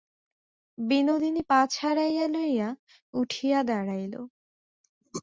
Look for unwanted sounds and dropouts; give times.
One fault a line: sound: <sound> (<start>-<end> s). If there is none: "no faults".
no faults